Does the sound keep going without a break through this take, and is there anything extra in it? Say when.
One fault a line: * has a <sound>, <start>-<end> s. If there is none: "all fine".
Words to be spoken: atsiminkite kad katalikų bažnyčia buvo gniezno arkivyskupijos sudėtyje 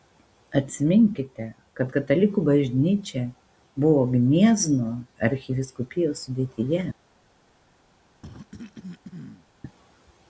* has a cough, 8.2-9.5 s